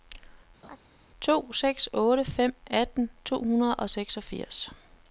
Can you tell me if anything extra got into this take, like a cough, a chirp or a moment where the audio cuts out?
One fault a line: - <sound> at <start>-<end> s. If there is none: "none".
- laugh at 0.6-0.8 s